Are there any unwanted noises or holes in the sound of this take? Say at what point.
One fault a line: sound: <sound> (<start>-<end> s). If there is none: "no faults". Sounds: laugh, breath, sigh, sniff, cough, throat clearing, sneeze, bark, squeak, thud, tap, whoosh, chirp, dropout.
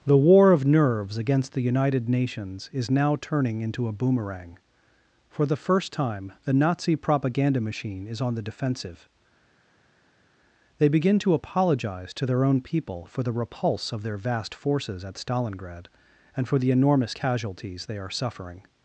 no faults